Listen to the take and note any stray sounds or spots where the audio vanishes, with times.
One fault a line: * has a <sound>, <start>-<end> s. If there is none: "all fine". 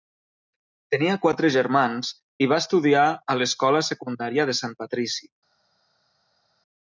all fine